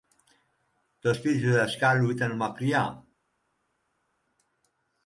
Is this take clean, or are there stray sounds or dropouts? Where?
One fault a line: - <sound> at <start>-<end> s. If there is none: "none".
none